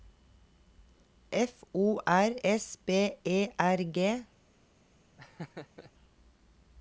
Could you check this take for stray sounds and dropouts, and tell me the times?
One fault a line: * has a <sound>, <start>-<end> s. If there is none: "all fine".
* has a laugh, 5.2-5.9 s